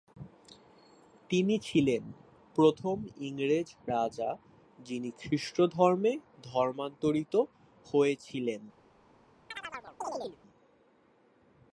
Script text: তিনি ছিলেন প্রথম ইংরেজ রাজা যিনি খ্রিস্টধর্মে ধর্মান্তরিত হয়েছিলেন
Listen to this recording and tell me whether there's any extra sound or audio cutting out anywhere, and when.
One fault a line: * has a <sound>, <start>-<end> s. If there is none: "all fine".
* has a chirp, 9.5-10.4 s